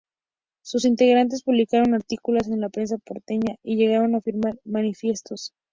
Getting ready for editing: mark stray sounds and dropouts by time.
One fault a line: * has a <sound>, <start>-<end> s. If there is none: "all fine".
all fine